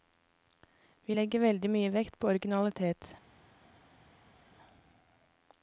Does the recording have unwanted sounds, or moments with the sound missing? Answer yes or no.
no